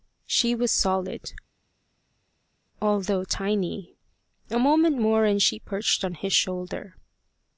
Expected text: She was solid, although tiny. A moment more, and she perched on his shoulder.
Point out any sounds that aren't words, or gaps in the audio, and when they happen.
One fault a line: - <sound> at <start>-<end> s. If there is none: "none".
none